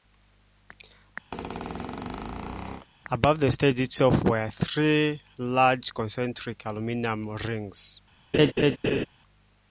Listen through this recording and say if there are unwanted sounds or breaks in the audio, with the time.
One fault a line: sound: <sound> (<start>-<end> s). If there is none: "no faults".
sound: squeak (1.3-2.9 s)
sound: laugh (8.3-9.1 s)